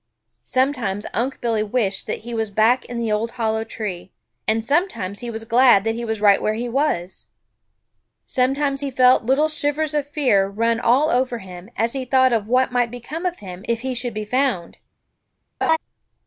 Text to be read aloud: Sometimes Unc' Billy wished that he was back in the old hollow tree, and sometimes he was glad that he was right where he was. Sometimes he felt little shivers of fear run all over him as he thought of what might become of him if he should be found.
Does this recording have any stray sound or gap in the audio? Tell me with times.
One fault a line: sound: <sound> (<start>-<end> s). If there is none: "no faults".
sound: laugh (15.6-15.8 s)